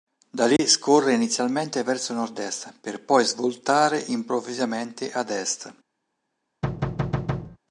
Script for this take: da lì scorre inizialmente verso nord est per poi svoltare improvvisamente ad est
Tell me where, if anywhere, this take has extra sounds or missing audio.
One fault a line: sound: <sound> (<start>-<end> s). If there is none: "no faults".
sound: dropout (0.6-0.6 s)
sound: thud (6.6-7.6 s)